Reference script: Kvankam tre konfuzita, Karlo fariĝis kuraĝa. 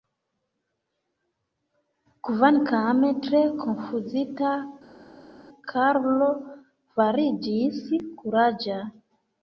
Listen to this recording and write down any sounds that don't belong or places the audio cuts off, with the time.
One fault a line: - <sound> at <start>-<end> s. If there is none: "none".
none